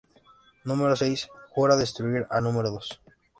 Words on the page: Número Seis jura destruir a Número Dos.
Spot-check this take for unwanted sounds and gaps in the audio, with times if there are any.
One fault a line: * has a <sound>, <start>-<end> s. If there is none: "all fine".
all fine